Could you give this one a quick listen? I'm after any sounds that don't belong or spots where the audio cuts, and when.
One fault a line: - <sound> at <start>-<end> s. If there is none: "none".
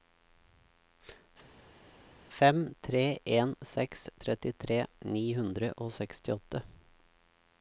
none